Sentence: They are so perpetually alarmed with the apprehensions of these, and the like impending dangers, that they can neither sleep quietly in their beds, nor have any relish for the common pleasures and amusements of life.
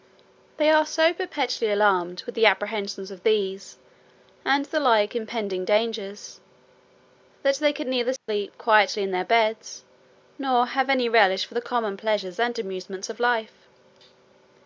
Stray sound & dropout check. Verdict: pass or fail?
fail